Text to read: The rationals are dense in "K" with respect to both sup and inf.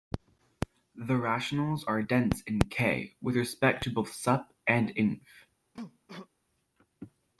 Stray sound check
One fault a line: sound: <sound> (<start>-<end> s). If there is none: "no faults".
sound: cough (5.7-6.3 s)